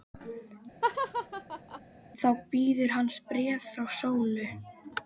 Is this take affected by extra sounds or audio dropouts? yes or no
yes